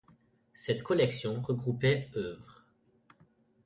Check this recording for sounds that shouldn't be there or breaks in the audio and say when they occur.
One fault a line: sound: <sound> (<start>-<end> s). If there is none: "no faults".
no faults